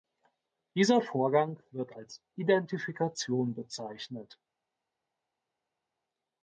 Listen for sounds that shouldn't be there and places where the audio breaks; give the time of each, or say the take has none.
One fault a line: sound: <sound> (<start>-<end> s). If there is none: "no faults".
no faults